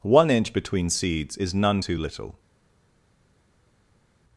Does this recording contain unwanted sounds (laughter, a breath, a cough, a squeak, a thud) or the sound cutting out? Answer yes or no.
no